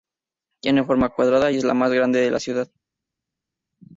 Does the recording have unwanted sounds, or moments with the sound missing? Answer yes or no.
no